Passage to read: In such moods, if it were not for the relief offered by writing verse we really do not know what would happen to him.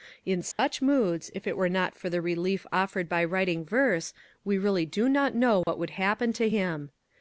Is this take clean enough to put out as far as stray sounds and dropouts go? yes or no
no